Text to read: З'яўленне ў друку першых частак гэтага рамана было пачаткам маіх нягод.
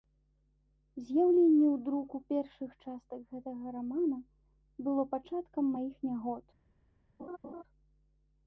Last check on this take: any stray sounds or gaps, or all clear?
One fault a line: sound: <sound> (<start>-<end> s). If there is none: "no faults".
sound: laugh (7.2-7.6 s)